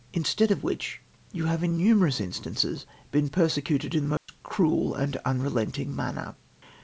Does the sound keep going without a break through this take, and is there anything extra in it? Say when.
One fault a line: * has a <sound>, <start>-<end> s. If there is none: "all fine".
* has a dropout, 4.2-4.3 s